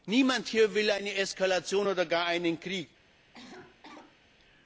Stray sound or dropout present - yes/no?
yes